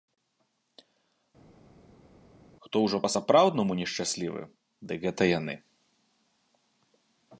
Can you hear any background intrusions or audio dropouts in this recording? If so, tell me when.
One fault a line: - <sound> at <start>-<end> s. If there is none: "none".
none